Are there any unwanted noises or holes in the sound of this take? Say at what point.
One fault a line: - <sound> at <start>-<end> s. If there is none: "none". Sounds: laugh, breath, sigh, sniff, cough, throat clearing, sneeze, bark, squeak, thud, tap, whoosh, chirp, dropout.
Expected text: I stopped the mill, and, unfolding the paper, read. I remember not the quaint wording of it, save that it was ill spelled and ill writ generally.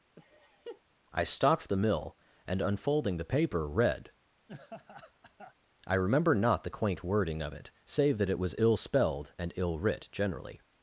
- laugh at 0.2-0.8 s
- laugh at 4.5-5.5 s